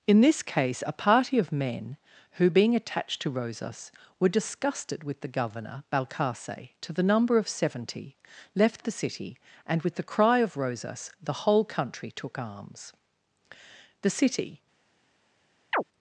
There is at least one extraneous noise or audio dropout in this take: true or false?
true